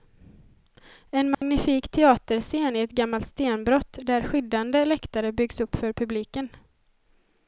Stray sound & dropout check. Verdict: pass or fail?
fail